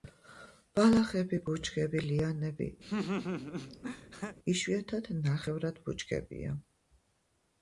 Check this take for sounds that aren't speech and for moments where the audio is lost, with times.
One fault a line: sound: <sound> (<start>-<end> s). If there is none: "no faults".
sound: laugh (2.8-4.4 s)